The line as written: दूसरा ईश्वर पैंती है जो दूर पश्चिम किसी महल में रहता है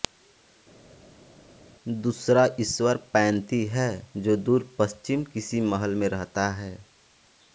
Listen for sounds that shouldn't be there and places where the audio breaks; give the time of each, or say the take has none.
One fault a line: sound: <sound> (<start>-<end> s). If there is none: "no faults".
no faults